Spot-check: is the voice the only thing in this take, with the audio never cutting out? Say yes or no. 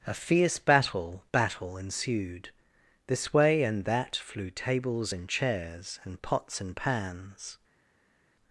yes